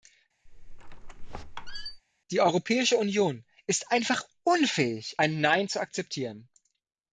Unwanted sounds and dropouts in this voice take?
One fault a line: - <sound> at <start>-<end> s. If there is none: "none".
- squeak at 0.5-2.0 s